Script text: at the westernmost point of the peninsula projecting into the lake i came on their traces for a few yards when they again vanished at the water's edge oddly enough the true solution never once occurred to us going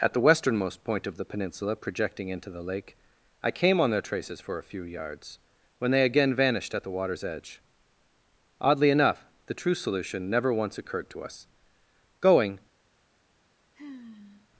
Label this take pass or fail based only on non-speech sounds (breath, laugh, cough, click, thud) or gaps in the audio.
fail